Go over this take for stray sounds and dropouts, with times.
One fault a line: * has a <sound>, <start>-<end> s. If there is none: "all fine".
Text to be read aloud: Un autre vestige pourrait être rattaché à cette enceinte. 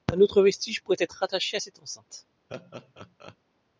* has a laugh, 2.5-3.4 s